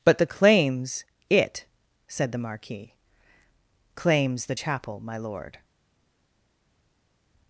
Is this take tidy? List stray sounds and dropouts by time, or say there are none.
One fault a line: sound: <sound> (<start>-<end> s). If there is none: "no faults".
no faults